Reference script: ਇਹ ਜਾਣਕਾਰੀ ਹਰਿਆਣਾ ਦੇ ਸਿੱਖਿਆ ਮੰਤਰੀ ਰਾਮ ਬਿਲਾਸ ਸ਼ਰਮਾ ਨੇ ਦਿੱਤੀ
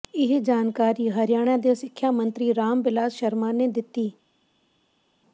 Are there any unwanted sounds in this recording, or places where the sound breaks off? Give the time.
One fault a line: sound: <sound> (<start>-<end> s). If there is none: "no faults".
no faults